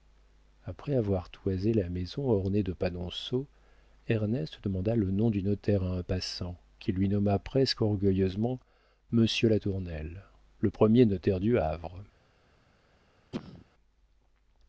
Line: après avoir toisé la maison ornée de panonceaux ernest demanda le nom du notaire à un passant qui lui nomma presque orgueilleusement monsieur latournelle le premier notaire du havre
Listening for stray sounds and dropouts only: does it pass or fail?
fail